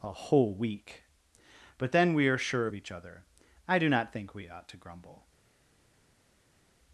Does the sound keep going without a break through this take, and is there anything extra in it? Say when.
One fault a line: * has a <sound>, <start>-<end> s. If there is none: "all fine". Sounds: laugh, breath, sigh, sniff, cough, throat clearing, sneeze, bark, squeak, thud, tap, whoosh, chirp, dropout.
all fine